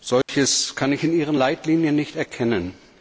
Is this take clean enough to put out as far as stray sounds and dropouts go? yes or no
no